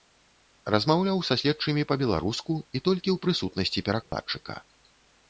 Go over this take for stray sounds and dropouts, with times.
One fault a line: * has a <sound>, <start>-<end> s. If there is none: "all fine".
* has a dropout, 4.0-4.1 s